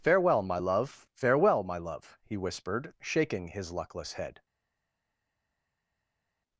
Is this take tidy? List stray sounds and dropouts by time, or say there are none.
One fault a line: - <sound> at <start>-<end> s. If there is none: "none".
none